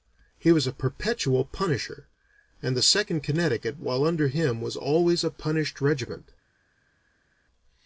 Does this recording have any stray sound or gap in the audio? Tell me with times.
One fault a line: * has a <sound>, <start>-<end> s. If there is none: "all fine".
all fine